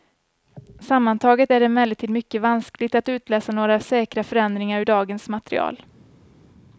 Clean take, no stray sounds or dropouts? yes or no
yes